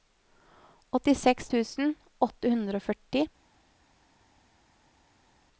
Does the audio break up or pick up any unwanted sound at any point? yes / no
no